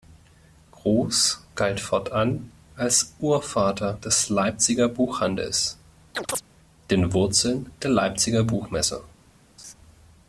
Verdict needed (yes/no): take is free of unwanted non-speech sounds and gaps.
no